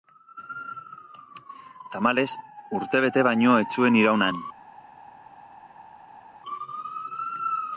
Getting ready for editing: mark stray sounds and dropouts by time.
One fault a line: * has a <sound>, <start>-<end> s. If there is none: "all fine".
all fine